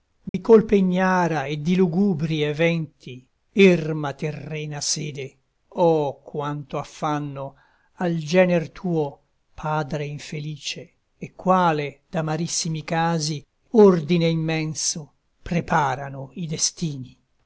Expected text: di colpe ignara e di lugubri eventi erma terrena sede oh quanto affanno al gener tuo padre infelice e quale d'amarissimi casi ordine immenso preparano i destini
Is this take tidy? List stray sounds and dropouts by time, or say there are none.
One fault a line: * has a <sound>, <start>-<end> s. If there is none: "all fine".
* has a dropout, 0.3-0.3 s